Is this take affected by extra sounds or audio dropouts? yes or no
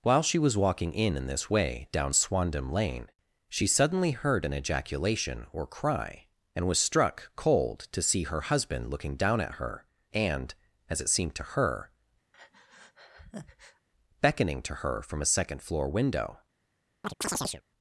yes